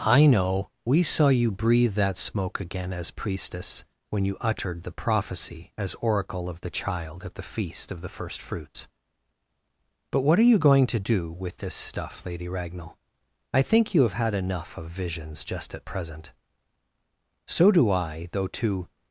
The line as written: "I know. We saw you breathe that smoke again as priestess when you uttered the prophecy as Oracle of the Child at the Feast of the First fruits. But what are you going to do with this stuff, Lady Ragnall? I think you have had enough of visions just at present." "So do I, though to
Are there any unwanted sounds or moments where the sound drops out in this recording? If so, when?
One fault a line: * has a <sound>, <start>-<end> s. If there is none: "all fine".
all fine